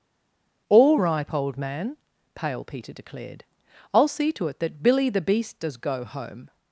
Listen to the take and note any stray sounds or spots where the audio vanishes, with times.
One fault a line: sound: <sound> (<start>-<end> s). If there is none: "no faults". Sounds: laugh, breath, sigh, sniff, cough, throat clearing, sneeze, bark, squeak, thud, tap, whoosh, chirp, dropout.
no faults